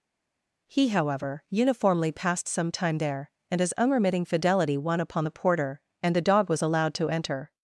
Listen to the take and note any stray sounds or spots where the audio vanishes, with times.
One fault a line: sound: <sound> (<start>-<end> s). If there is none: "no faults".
no faults